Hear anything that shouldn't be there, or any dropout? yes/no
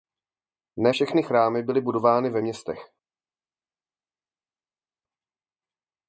no